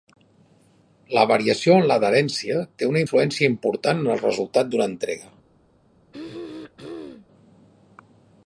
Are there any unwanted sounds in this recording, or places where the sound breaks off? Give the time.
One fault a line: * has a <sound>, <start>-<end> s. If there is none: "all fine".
* has a throat clearing, 6.1-7.3 s